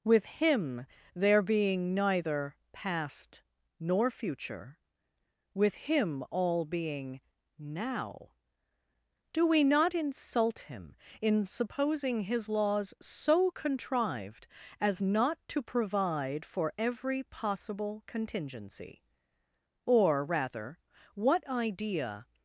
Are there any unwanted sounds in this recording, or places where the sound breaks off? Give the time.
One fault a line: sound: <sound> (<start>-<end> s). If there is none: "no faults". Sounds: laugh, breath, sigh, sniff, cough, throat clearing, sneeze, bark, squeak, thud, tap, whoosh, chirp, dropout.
no faults